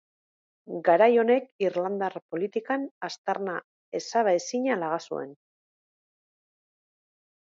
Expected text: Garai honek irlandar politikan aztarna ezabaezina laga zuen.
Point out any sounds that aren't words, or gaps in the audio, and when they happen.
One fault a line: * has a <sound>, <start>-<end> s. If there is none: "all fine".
all fine